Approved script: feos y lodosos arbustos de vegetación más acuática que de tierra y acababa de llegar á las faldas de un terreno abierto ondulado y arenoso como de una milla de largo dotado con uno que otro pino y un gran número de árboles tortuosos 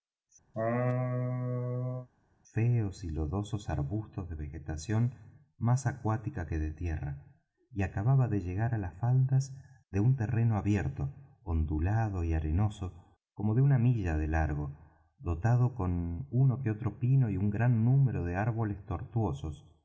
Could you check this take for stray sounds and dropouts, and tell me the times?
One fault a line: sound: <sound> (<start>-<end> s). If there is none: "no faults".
sound: laugh (0.5-2.1 s)